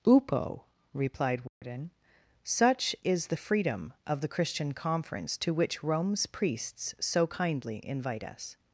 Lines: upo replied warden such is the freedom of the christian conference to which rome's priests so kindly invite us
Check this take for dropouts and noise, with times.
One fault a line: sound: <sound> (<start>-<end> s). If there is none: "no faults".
sound: dropout (1.5-1.6 s)